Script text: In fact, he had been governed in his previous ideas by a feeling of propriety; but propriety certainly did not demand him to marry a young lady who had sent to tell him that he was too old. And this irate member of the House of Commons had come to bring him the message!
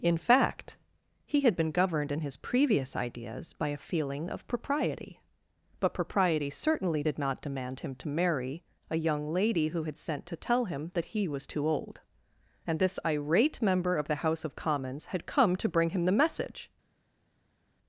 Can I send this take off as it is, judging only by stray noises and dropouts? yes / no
yes